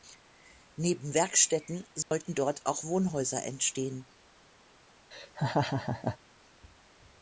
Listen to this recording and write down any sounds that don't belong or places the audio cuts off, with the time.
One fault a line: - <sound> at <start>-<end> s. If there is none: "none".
- dropout at 2.0-2.1 s
- laugh at 5.1-6.2 s